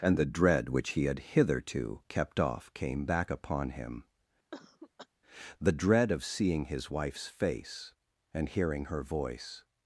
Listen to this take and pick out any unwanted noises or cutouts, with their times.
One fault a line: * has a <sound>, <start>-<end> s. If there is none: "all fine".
* has a cough, 4.5-5.1 s